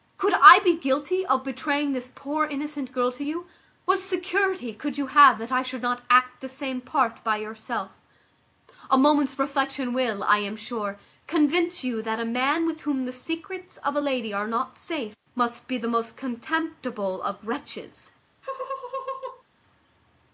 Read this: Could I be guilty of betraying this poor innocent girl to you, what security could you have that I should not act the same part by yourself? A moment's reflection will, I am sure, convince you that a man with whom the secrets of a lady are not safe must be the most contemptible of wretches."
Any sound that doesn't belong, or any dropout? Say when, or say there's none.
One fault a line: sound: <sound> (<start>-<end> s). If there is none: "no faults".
sound: laugh (18.4-19.4 s)